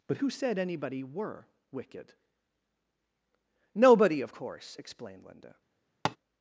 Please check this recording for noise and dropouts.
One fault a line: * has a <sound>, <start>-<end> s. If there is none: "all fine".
* has a tap, 6.0-6.2 s